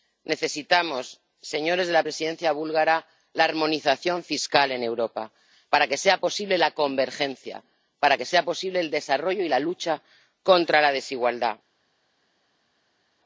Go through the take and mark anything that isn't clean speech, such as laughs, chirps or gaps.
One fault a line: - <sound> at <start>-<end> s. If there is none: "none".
none